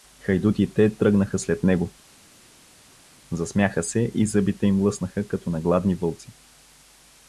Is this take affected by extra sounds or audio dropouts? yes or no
no